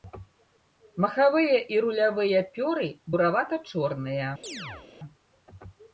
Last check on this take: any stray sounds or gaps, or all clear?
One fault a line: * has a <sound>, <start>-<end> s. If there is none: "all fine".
* has a chirp, 4.4-4.9 s